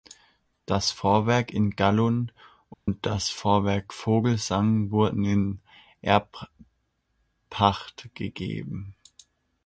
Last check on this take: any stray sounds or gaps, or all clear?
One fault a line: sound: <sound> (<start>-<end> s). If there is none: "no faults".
sound: dropout (2.7-2.9 s)